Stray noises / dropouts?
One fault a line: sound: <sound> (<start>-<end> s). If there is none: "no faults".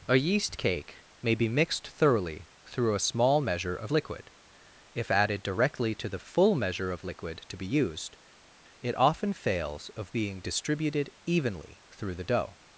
no faults